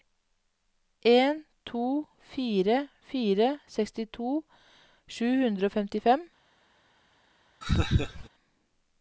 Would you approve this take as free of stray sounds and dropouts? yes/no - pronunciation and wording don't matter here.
no